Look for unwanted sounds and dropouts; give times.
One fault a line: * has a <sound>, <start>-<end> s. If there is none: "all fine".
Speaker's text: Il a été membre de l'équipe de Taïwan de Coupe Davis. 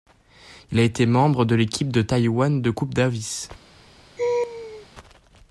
* has a laugh, 4.2-4.9 s